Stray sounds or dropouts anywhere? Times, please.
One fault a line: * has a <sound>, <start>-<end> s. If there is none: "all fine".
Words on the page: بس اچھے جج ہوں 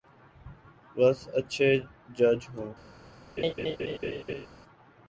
* has a laugh, 3.4-4.5 s